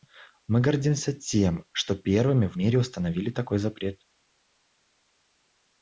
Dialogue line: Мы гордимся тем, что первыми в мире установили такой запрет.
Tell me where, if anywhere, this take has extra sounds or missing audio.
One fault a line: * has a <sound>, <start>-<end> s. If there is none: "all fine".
all fine